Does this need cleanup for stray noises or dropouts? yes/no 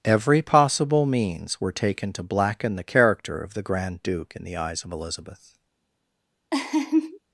yes